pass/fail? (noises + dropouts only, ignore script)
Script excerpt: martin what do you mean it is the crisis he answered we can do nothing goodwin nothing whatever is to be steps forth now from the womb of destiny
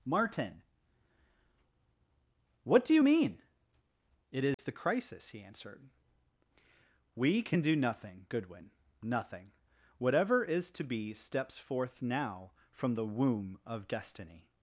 fail